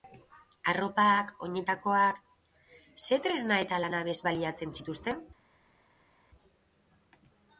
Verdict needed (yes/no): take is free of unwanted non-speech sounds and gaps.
yes